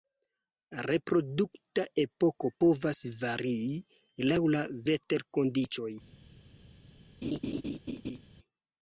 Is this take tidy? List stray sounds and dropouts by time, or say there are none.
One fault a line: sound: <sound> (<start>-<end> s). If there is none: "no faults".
sound: laugh (7.2-8.2 s)